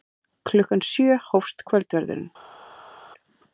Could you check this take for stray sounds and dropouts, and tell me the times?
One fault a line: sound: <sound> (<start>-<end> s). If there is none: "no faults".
no faults